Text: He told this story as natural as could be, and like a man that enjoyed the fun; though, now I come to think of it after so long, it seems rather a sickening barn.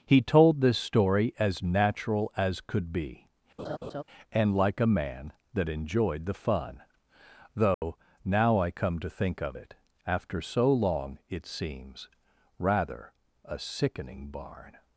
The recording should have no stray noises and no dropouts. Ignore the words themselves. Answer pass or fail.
fail